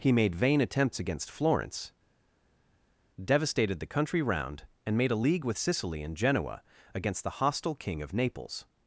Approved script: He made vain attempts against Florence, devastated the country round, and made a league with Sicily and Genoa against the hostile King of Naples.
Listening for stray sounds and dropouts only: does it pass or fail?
pass